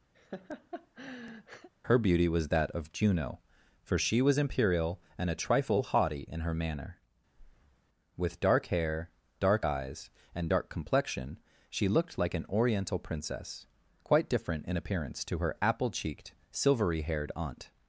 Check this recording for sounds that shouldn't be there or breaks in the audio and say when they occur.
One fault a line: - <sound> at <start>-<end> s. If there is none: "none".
- laugh at 0.1-1.7 s
- breath at 7.3-7.8 s